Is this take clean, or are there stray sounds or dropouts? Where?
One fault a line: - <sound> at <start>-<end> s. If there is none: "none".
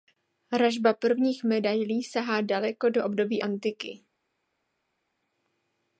none